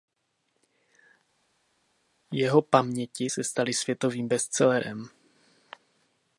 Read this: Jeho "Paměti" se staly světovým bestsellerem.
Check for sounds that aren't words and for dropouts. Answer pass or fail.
pass